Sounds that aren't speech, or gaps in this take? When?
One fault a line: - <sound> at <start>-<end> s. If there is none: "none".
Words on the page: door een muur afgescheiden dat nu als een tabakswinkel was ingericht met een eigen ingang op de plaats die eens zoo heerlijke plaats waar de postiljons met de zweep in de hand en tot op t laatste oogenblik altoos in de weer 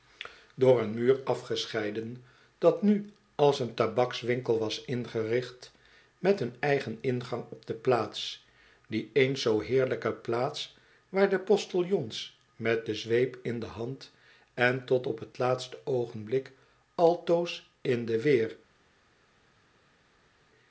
none